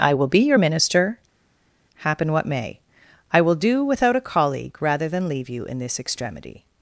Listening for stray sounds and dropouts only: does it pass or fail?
pass